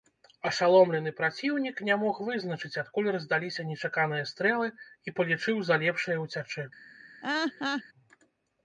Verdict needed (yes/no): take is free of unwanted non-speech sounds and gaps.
no